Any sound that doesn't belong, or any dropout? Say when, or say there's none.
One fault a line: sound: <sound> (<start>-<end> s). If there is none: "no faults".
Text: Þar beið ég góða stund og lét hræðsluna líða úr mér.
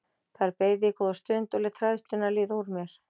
no faults